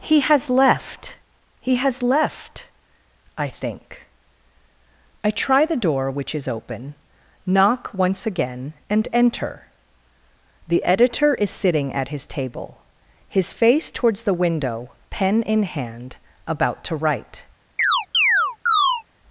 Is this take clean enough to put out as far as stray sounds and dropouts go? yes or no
no